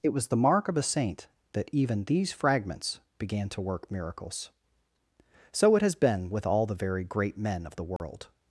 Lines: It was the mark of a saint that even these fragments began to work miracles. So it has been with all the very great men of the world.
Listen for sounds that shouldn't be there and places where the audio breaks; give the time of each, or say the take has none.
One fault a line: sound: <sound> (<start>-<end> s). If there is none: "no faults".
sound: dropout (8.0-8.0 s)